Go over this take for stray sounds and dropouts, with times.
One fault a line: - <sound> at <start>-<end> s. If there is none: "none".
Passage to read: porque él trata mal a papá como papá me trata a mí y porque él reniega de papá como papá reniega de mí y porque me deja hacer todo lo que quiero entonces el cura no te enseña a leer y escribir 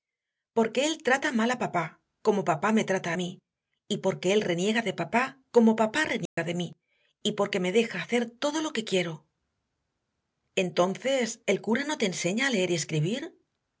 - dropout at 6.3-6.4 s